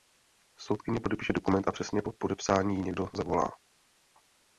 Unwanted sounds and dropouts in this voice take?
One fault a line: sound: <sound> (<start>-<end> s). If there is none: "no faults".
no faults